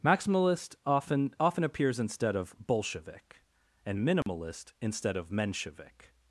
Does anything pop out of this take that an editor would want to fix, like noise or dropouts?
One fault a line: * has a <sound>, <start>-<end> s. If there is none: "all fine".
* has a dropout, 4.2-4.3 s